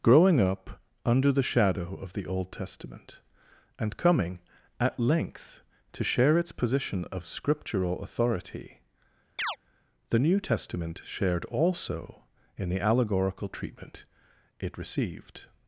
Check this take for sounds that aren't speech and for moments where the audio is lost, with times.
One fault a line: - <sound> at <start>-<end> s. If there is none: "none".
- chirp at 9.4-9.6 s